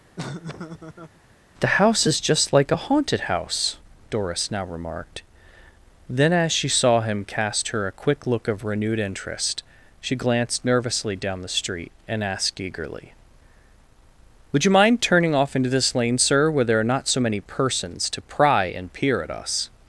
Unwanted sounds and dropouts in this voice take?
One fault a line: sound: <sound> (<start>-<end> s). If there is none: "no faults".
sound: laugh (0.2-1.2 s)